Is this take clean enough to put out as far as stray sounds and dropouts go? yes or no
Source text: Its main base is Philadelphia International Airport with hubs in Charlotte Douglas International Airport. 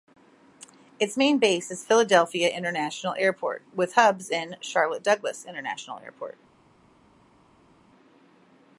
yes